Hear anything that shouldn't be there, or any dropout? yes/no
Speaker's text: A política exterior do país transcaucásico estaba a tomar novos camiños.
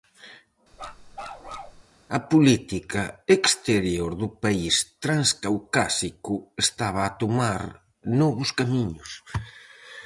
yes